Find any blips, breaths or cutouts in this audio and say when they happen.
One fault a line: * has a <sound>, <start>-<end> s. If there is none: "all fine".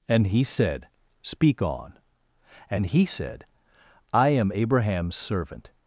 all fine